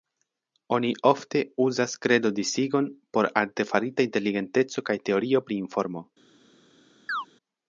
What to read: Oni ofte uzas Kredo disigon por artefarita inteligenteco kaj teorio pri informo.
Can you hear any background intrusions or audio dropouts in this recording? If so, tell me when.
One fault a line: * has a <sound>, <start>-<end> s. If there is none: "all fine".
* has a chirp, 7.1-7.3 s